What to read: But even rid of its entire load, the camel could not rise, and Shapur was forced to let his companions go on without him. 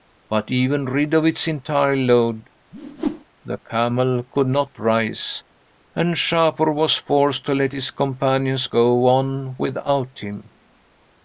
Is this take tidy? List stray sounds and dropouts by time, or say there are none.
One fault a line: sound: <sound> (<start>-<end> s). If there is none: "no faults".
sound: whoosh (2.7-3.2 s)